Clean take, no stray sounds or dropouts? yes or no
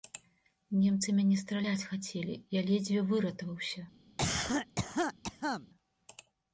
no